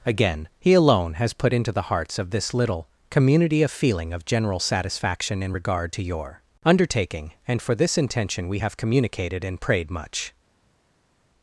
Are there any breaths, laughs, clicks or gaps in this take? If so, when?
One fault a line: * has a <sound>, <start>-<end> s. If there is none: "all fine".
all fine